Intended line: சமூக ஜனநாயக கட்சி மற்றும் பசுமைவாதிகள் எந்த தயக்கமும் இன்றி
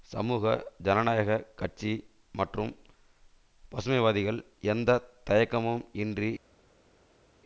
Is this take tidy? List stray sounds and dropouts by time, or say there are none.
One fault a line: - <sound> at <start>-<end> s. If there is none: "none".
none